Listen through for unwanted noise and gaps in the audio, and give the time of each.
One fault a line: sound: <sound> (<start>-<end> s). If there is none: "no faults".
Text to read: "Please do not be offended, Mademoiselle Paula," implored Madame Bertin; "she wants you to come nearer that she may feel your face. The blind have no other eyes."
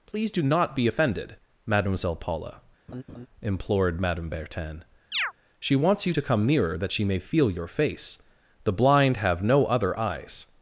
sound: laugh (2.9-3.3 s)
sound: chirp (5.1-5.3 s)